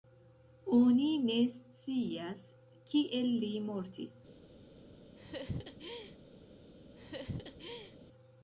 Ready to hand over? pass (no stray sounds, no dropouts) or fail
fail